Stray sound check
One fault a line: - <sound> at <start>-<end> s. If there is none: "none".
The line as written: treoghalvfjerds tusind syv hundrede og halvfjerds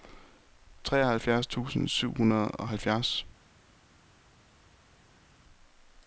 none